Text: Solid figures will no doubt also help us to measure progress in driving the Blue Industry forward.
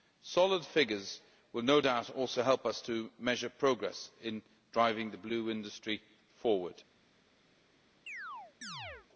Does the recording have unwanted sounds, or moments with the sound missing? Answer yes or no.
yes